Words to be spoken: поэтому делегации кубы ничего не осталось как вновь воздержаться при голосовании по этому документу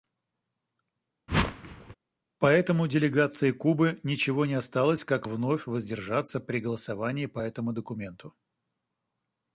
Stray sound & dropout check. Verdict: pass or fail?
fail